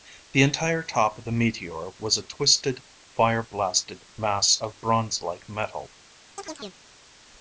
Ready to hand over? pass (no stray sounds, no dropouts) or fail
fail